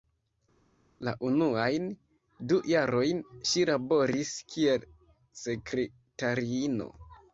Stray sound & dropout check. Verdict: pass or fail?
pass